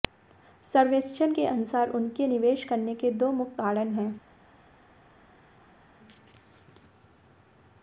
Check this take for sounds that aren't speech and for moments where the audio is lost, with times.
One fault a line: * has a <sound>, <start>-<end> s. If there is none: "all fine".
all fine